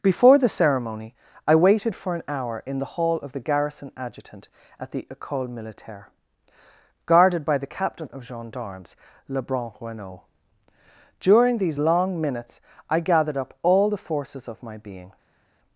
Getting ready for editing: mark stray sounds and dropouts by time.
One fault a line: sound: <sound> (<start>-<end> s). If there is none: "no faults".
no faults